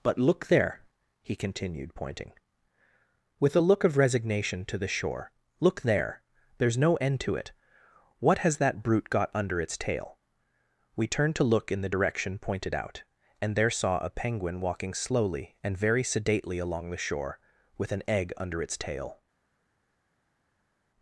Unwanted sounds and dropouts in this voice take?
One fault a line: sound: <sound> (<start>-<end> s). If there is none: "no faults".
no faults